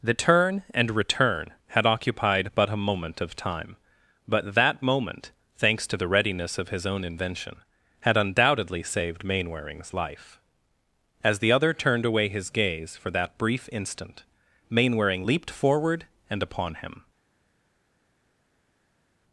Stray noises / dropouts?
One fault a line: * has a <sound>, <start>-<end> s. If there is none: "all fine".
all fine